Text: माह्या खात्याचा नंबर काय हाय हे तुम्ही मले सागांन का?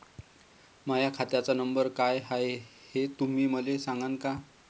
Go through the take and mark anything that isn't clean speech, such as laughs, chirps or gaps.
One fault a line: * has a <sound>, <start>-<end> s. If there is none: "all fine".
all fine